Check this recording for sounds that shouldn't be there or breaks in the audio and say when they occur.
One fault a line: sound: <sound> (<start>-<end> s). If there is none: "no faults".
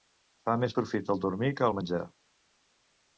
no faults